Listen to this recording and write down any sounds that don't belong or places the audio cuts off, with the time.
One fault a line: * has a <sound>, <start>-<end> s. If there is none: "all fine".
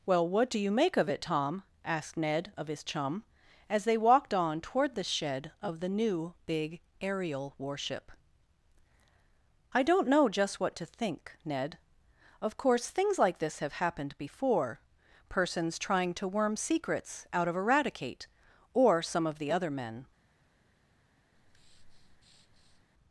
* has a breath, 21.3-22.8 s